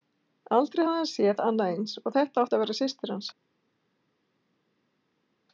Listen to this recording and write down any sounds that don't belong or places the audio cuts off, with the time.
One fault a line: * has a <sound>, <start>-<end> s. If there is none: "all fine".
all fine